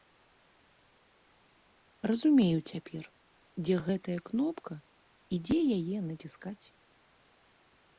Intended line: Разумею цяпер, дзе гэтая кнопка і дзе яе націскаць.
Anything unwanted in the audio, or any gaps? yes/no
no